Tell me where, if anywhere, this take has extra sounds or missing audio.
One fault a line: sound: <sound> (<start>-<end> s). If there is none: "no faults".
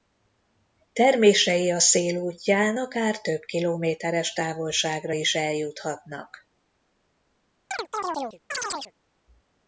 sound: chirp (7.7-8.9 s)